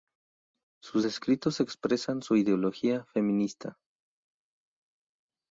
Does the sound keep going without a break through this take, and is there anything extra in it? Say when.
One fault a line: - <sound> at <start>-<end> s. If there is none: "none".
none